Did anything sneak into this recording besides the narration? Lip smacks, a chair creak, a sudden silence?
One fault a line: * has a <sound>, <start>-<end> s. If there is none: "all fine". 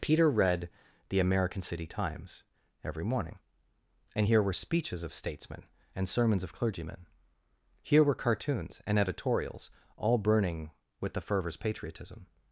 all fine